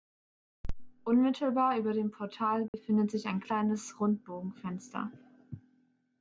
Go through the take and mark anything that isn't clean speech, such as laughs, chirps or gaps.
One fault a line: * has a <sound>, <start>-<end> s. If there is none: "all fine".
* has a dropout, 2.7-2.7 s